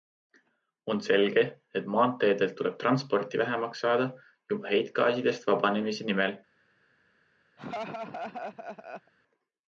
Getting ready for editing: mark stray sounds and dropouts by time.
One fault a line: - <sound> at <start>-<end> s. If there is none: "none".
- laugh at 7.6-9.1 s